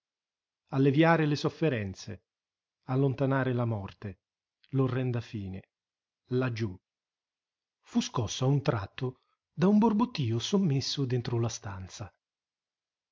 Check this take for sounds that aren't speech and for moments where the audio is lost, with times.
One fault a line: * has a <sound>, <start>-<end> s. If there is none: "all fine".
all fine